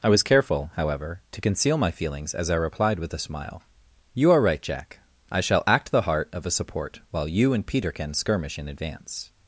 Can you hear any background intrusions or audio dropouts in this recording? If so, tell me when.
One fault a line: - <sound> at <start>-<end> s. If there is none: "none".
none